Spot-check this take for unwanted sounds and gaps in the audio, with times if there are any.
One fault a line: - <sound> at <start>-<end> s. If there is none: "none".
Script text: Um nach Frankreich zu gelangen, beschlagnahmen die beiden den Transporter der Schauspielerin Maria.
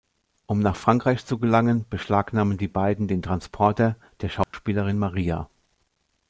- dropout at 4.4-4.5 s